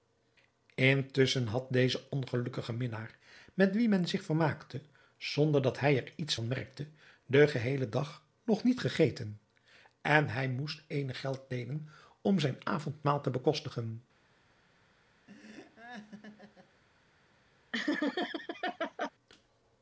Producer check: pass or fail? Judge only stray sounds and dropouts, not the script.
fail